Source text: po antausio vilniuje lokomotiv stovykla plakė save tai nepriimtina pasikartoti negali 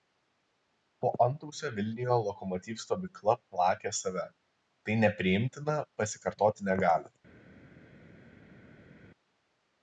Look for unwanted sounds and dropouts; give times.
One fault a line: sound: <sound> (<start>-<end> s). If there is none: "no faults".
no faults